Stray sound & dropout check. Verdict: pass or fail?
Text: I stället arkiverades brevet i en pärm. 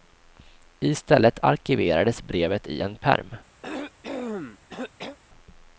fail